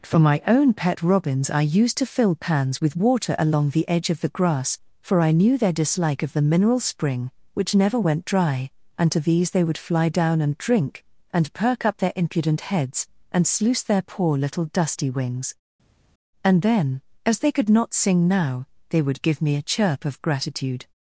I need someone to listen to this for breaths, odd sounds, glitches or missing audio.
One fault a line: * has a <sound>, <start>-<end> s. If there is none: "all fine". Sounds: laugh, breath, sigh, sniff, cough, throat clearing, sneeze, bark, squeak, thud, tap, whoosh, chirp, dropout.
all fine